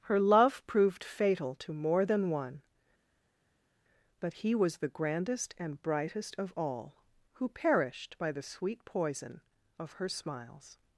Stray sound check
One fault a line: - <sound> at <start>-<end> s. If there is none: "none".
none